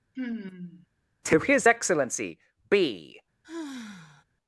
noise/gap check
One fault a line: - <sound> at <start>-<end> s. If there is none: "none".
- sigh at 0.2-0.9 s
- sigh at 3.4-4.2 s